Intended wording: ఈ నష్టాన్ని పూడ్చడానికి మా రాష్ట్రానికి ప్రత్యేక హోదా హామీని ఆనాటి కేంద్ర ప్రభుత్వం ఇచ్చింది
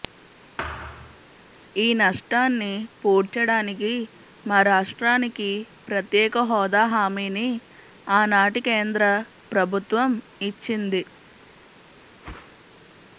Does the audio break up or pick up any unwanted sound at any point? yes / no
yes